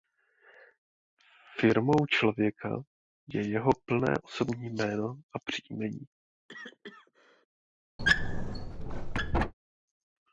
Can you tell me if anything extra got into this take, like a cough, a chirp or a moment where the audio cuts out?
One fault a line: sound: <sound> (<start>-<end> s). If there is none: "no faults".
sound: cough (6.5-7.5 s)
sound: squeak (8.0-9.5 s)